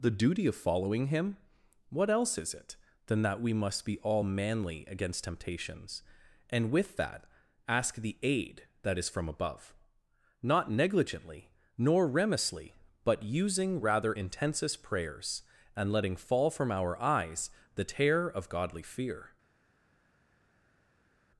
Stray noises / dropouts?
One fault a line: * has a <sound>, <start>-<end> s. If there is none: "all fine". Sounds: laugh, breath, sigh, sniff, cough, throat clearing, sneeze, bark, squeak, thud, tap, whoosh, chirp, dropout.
all fine